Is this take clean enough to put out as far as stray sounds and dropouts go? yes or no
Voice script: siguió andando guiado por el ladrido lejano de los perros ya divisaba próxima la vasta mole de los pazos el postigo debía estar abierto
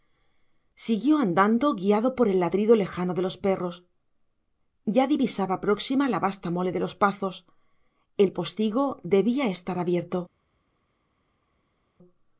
yes